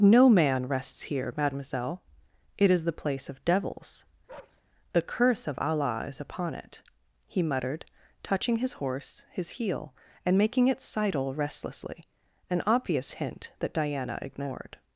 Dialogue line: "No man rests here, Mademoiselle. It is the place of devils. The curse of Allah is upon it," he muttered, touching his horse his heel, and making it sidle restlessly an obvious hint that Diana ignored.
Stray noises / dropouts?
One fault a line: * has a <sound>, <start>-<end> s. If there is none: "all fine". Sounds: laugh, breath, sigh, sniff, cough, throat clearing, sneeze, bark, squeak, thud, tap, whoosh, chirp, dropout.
* has a bark, 4.3-4.6 s